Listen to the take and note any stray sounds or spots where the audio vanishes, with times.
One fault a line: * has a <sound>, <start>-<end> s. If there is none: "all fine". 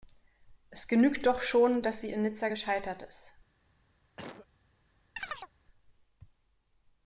* has a cough, 4.2-4.5 s
* has a chirp, 5.2-5.5 s